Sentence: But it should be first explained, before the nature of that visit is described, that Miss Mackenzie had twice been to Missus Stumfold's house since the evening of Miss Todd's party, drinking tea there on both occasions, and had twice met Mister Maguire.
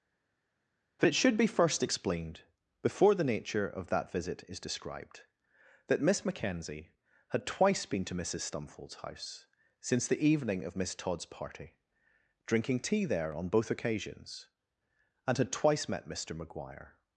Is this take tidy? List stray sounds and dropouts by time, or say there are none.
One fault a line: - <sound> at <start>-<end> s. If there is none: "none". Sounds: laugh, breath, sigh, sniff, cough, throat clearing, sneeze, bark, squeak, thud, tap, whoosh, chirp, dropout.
none